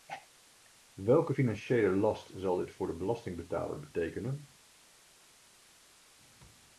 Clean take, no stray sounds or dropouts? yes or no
yes